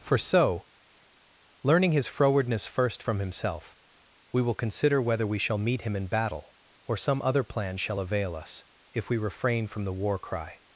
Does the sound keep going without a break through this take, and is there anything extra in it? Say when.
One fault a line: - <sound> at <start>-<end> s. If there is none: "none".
none